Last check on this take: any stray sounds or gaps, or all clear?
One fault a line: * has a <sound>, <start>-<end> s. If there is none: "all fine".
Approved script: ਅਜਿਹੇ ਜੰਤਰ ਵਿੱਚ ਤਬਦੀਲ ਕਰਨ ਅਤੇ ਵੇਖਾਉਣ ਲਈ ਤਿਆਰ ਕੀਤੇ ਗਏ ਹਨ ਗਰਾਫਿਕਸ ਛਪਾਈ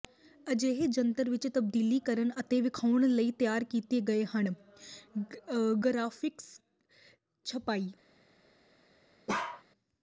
* has a bark, 9.3-9.6 s